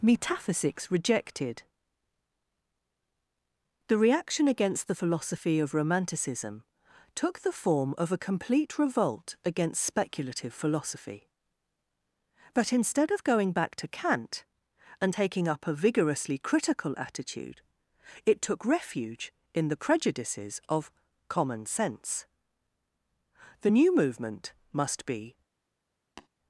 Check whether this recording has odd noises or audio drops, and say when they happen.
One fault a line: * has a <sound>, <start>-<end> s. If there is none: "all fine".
* has a tap, 26.2-26.3 s